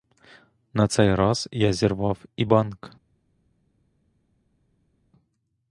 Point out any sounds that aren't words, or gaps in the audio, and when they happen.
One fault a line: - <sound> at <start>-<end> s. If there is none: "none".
none